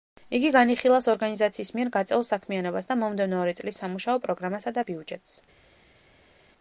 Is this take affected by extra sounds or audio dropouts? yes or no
no